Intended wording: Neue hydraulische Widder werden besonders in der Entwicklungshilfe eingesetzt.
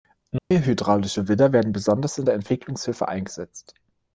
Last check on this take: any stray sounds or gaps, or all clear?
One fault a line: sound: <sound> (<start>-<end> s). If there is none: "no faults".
sound: dropout (0.4-0.5 s)